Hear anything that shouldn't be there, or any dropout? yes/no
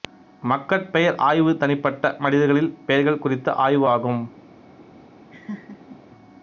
yes